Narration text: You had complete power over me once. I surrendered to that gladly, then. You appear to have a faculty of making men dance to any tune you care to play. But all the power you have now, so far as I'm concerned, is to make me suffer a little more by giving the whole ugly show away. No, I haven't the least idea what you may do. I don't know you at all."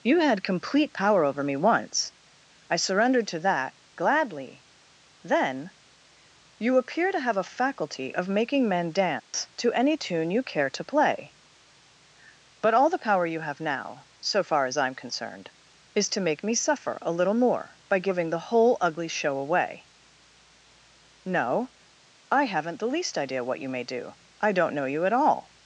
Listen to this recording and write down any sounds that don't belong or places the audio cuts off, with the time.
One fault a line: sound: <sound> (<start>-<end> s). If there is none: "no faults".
sound: dropout (9.2-9.3 s)